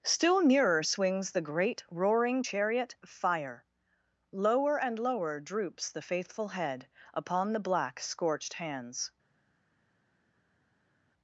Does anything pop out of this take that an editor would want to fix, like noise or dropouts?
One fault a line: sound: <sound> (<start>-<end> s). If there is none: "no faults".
no faults